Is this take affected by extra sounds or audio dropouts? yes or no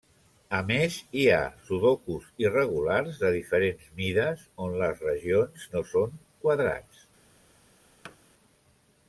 yes